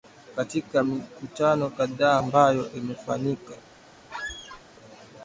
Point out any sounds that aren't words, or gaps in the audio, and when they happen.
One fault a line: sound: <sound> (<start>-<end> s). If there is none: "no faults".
sound: squeak (4.1-4.6 s)